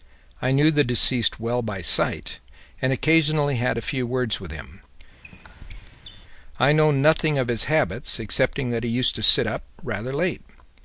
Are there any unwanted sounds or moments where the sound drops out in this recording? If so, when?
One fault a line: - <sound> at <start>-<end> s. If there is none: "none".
- squeak at 5.2-6.3 s